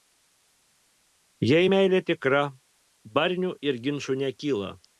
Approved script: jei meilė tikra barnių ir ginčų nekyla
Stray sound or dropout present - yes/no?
no